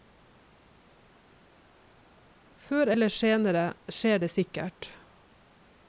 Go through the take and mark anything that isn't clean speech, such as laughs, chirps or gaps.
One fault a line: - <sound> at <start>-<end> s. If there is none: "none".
none